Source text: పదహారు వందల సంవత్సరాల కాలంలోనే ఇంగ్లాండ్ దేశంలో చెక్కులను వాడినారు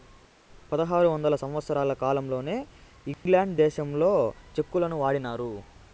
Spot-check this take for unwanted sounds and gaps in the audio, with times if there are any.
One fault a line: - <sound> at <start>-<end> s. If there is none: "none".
- dropout at 3.1-3.3 s